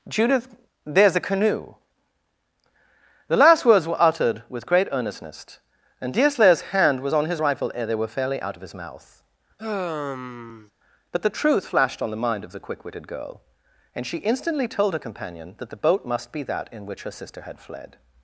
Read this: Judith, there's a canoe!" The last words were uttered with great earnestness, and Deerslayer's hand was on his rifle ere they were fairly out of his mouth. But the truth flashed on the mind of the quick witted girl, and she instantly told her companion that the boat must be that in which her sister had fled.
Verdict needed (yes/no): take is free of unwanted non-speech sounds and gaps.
no